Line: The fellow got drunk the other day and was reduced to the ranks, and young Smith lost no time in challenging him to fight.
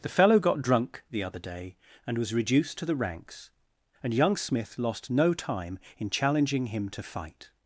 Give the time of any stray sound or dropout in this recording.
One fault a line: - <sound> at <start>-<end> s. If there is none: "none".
none